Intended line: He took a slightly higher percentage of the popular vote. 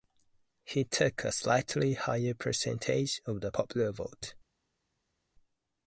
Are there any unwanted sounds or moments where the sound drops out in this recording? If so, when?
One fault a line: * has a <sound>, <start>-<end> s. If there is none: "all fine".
all fine